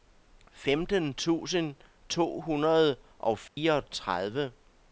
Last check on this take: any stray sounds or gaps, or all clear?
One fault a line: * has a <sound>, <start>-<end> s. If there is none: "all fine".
* has a dropout, 3.5-3.6 s